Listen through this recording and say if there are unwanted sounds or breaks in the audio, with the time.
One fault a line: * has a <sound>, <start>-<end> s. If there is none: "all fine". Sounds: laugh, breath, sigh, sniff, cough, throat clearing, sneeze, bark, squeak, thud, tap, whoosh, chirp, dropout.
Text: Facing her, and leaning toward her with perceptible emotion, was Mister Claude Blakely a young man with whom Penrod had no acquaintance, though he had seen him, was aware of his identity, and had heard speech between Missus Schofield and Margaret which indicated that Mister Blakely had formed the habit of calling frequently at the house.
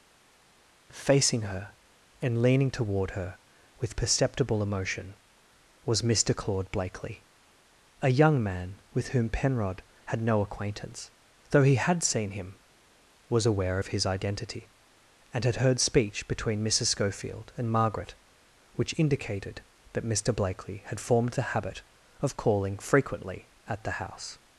all fine